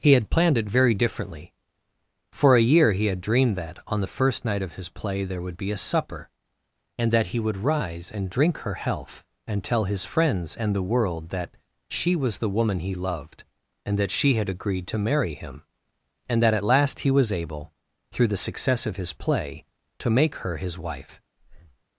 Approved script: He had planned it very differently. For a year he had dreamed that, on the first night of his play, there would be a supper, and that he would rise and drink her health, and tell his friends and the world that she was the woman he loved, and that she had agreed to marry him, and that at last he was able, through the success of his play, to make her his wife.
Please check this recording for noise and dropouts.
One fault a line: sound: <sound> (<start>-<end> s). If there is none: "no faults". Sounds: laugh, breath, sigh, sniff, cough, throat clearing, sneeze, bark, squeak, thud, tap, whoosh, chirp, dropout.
sound: breath (21.4-21.8 s)